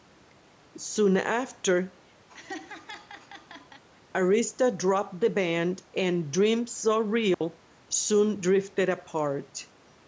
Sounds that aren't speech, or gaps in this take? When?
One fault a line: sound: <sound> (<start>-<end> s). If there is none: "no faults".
sound: laugh (2.3-3.8 s)
sound: dropout (7.3-7.4 s)